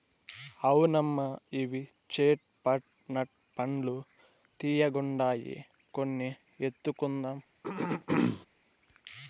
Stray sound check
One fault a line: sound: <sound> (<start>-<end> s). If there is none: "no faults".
sound: throat clearing (7.6-8.5 s)